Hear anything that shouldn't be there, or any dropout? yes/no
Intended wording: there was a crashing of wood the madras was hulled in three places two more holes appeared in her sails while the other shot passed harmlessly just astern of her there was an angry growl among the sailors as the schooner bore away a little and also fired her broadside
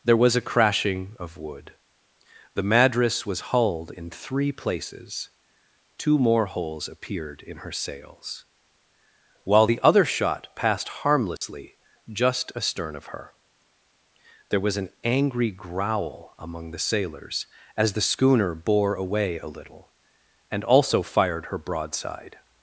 yes